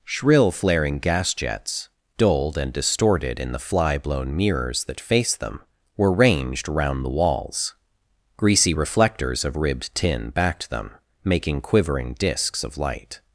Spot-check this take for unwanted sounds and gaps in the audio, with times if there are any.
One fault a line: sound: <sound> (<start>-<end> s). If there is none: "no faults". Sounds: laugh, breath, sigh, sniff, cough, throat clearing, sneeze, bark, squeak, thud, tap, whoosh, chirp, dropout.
no faults